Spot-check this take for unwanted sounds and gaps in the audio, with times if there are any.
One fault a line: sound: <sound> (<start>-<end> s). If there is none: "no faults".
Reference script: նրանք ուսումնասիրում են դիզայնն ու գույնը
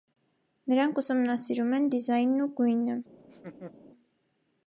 sound: laugh (3.2-3.7 s)